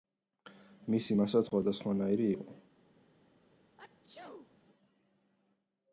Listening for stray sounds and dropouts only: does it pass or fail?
fail